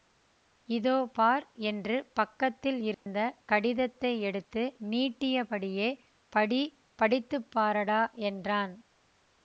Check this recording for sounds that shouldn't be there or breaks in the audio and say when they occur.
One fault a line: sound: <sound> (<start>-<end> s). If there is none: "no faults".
sound: dropout (2.9-3.1 s)